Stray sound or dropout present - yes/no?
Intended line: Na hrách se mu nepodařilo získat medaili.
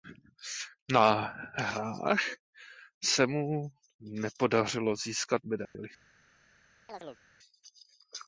yes